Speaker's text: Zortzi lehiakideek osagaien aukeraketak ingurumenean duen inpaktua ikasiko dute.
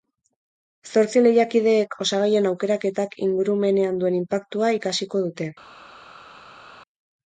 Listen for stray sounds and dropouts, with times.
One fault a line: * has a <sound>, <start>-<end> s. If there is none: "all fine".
all fine